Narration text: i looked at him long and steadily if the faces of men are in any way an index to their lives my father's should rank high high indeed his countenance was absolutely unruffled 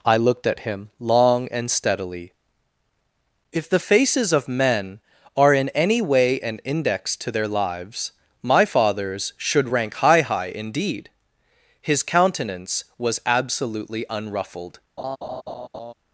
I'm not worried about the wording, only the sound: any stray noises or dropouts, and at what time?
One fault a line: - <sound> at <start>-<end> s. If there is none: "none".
- laugh at 15.0-15.9 s